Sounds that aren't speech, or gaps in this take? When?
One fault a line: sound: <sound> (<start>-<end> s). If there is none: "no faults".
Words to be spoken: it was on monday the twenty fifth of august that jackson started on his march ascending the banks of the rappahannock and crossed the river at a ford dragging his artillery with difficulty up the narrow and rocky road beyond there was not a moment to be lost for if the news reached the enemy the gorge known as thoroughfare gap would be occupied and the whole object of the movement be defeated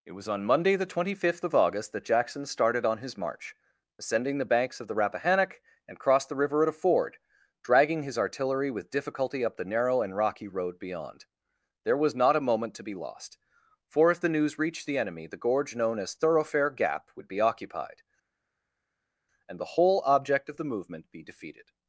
no faults